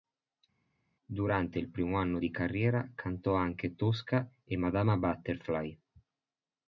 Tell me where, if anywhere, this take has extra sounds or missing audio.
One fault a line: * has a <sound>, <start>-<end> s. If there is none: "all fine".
all fine